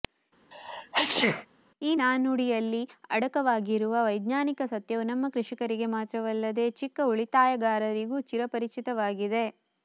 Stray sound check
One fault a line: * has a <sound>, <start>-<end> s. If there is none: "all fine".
* has a sneeze, 0.5-1.5 s